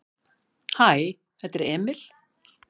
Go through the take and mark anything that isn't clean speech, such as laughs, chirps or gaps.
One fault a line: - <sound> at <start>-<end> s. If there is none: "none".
none